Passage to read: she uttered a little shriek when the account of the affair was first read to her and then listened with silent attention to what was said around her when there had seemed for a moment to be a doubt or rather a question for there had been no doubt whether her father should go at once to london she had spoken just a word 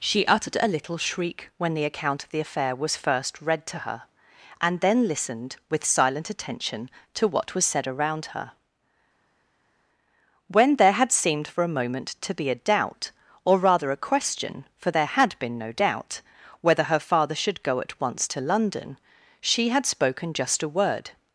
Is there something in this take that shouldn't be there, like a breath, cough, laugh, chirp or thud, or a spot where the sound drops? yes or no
no